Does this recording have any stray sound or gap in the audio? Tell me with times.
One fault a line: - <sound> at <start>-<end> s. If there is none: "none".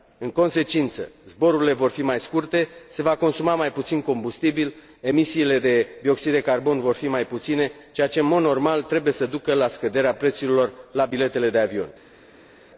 none